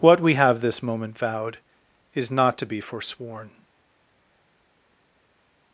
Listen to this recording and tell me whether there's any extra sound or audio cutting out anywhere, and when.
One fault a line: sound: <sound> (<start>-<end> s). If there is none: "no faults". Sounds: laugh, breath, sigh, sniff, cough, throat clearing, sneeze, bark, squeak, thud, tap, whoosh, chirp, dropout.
no faults